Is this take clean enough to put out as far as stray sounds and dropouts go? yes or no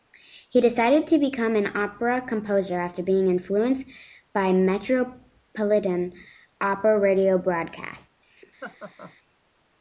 no